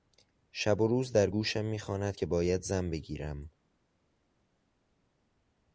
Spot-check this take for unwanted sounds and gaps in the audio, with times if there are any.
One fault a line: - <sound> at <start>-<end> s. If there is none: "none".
none